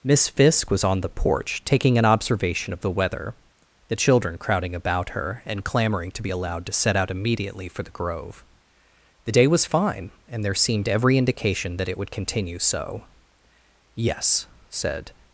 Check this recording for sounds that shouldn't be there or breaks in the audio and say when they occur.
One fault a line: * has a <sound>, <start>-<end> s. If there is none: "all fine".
all fine